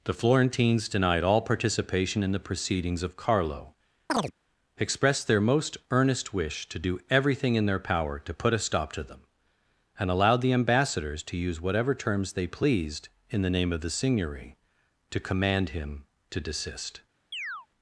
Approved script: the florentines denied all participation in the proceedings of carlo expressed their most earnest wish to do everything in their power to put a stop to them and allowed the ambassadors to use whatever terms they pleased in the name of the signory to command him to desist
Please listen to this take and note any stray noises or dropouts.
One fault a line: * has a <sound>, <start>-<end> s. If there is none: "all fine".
* has a chirp, 4.1-4.3 s
* has a chirp, 17.3-17.7 s